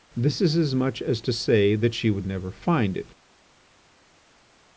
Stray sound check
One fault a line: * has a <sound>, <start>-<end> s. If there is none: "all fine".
all fine